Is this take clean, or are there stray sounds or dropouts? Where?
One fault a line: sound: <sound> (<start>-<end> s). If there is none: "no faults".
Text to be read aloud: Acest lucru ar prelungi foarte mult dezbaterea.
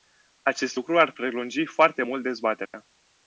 sound: dropout (2.7-2.7 s)